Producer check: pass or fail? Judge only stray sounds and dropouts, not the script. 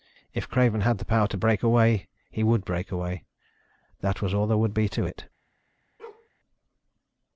fail